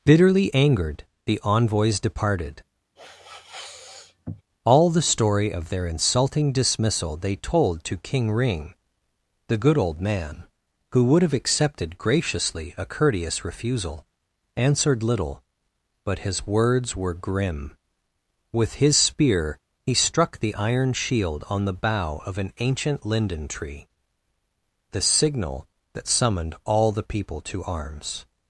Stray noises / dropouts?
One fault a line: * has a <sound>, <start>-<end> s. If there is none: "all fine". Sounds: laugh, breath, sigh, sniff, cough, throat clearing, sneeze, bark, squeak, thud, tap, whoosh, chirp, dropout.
* has a sniff, 3.0-4.4 s